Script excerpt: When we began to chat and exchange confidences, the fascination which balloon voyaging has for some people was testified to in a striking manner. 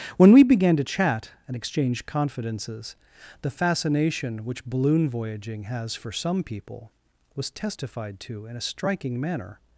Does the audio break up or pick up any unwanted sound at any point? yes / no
no